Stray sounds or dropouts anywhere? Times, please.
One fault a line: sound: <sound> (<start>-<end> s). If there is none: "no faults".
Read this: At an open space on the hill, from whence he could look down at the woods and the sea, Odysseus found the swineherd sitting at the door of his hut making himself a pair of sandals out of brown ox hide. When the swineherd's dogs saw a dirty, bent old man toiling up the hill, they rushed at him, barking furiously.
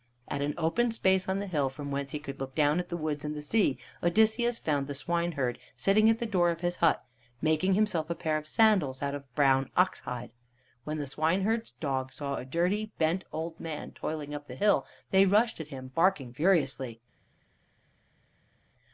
no faults